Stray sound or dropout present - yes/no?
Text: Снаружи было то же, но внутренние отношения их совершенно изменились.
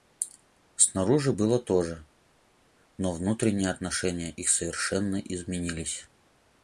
no